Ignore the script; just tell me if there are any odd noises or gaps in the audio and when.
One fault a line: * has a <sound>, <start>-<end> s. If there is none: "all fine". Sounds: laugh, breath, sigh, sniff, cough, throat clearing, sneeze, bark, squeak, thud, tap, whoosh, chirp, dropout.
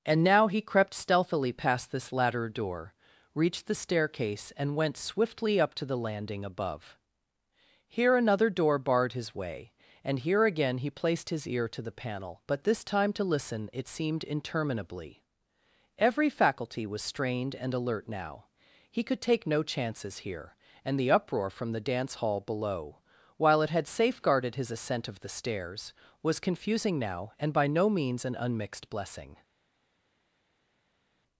all fine